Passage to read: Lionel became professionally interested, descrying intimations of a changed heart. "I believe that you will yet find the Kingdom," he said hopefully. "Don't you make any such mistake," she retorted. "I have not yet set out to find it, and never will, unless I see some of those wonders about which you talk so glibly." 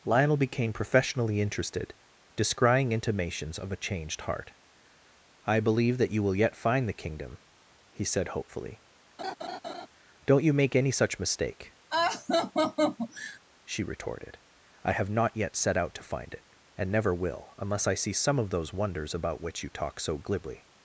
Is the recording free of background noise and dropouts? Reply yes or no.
no